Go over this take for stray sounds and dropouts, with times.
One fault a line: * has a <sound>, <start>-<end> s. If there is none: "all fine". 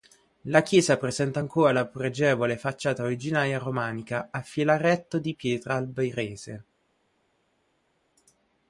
all fine